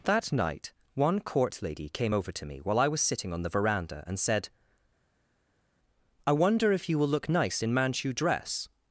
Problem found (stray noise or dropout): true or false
false